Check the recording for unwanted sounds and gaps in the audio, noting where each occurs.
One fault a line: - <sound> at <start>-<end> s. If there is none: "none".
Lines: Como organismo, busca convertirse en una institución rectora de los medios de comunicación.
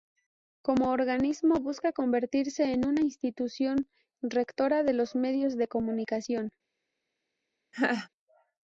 - laugh at 7.7-8.1 s